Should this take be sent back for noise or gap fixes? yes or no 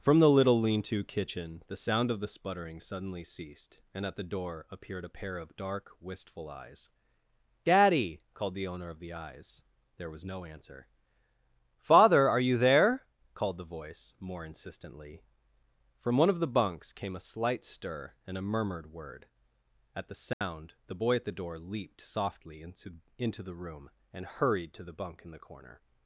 yes